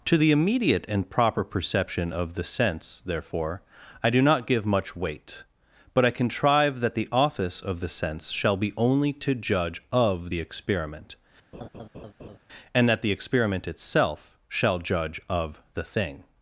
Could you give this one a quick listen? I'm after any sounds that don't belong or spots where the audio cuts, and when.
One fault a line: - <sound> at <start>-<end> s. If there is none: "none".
- laugh at 11.5-12.4 s